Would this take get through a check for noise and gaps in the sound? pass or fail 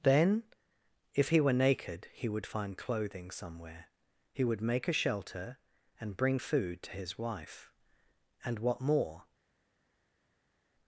pass